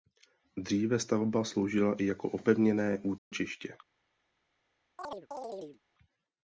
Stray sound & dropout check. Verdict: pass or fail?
fail